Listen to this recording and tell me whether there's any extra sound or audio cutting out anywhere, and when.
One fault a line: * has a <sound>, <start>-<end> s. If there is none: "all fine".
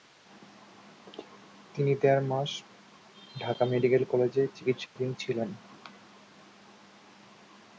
* has a dropout, 4.9-5.0 s